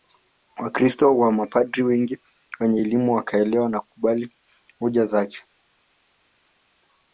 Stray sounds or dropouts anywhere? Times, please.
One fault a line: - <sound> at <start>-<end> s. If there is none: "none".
none